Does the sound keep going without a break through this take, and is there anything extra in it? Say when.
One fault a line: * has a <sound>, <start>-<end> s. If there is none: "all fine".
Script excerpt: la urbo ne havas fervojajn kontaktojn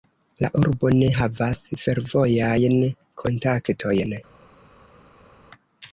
all fine